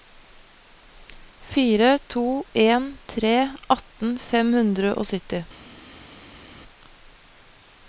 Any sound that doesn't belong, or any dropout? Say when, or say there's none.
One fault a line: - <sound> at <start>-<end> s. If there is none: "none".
none